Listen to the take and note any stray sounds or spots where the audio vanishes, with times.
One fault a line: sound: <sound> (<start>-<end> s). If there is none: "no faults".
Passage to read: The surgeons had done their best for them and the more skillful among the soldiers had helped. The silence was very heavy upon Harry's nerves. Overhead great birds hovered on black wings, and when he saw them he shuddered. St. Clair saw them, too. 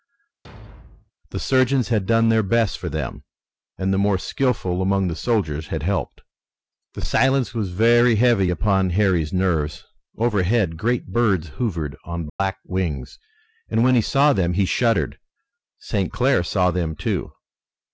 sound: thud (0.4-1.1 s)
sound: dropout (12.3-12.4 s)